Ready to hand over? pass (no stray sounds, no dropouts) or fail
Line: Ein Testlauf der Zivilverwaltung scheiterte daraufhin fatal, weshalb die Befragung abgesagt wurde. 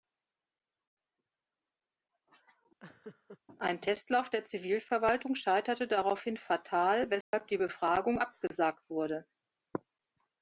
fail